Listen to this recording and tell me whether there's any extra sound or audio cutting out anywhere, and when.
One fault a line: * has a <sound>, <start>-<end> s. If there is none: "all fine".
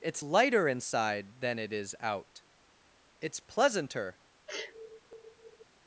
* has a sneeze, 4.5-5.6 s